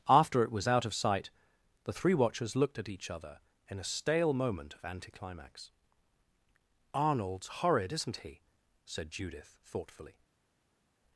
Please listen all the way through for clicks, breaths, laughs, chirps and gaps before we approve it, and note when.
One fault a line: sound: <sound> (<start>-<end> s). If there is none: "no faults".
no faults